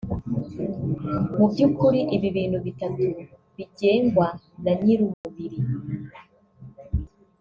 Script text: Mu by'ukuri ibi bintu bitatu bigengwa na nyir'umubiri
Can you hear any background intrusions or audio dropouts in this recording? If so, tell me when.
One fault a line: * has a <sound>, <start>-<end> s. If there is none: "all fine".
* has a dropout, 5.1-5.2 s